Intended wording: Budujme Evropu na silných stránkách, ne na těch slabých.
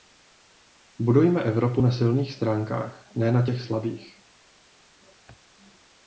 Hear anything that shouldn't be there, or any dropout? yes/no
no